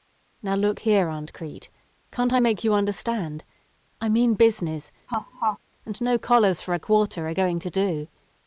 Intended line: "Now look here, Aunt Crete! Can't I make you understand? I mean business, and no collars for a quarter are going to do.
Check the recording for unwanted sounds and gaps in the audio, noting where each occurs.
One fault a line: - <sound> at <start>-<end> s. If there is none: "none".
- laugh at 5.1-5.6 s